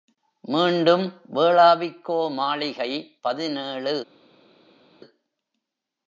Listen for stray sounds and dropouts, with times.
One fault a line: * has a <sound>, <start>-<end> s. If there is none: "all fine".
all fine